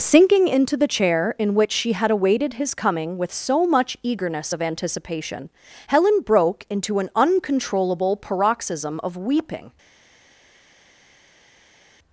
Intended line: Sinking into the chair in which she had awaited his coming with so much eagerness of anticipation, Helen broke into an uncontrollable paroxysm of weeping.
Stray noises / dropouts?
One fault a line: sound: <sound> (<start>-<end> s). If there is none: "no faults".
no faults